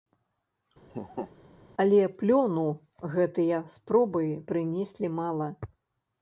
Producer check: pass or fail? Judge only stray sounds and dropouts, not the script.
fail